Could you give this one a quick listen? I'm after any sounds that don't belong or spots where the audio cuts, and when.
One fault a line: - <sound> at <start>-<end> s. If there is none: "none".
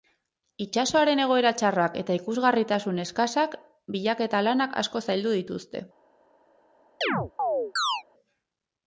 - chirp at 7.0-8.0 s